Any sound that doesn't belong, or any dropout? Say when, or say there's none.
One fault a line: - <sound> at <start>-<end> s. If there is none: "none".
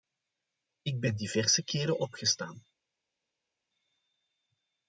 none